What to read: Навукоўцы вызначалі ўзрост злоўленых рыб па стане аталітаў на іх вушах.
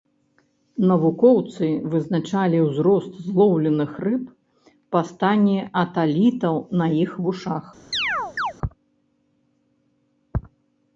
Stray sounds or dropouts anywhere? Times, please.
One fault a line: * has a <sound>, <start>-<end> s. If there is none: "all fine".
* has a chirp, 7.9-8.5 s